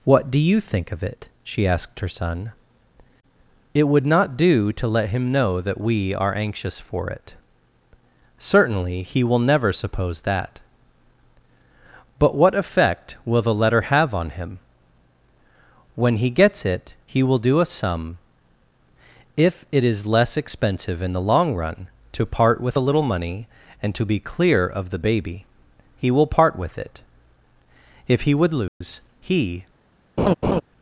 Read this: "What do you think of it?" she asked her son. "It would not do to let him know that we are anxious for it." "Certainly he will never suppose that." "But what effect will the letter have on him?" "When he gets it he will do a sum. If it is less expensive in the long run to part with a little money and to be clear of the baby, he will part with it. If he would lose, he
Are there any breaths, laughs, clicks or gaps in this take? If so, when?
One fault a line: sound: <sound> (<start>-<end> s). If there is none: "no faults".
sound: dropout (28.7-28.8 s)
sound: laugh (30.2-30.6 s)